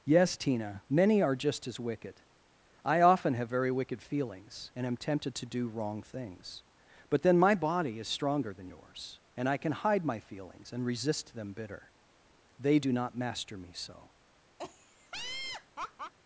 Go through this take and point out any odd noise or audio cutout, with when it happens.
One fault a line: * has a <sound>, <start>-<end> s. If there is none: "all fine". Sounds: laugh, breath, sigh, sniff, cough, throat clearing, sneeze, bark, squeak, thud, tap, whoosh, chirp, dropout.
* has a laugh, 14.6-16.1 s